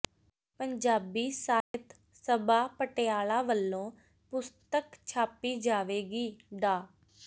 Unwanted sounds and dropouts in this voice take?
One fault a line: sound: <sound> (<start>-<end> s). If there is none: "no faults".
sound: dropout (1.6-1.7 s)